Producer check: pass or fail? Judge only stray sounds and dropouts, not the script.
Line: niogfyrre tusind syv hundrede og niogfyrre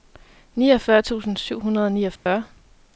fail